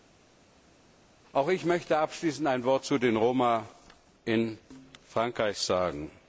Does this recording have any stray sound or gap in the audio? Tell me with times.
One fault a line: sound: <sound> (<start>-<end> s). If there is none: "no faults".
no faults